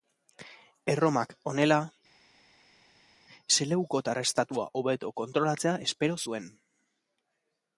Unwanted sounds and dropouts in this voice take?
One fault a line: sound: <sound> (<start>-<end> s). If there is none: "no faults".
no faults